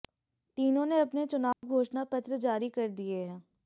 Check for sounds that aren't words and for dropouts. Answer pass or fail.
fail